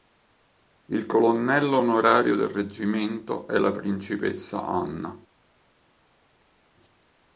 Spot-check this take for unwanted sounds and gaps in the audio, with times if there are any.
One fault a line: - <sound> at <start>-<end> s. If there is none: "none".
none